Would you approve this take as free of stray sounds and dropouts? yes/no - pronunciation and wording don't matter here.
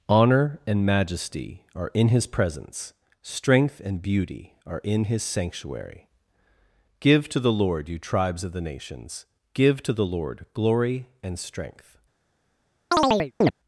no